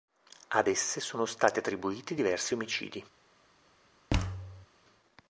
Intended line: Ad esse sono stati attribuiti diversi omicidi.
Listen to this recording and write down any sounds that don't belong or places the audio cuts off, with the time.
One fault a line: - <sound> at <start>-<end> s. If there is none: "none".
- thud at 4.1-4.7 s